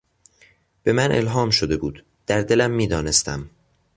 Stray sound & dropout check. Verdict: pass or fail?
pass